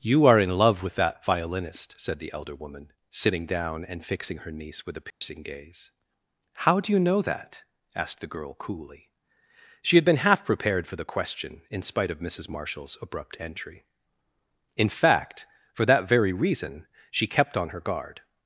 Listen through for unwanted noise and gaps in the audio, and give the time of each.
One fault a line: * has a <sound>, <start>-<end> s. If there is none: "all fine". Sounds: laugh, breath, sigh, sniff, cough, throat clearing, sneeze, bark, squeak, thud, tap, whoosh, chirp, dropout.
* has a dropout, 5.1-5.2 s